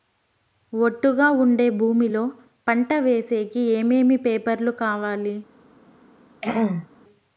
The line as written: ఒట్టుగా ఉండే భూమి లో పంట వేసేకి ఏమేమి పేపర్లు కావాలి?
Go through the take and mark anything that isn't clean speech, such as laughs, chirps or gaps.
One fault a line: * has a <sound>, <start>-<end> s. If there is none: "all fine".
* has a throat clearing, 6.4-6.9 s